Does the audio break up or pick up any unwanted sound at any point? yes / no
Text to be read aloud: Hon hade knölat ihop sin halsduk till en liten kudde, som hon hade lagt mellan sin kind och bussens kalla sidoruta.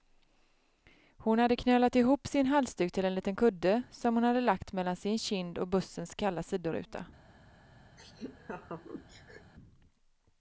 yes